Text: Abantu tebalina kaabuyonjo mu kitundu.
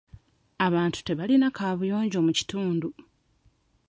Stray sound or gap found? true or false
false